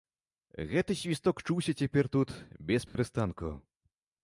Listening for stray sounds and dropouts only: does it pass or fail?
fail